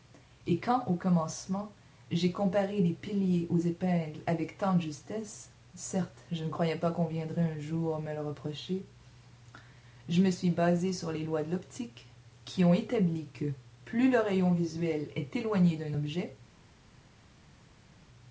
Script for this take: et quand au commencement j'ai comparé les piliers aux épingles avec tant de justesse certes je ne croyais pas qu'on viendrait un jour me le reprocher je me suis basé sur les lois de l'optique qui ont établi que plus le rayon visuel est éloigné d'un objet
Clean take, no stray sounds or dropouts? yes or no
yes